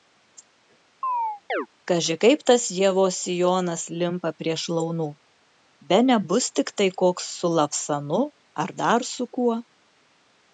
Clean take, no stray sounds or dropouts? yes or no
no